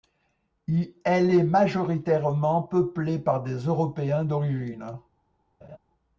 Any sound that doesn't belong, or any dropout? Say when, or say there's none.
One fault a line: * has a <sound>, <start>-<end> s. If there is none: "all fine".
* has a laugh, 5.6-5.8 s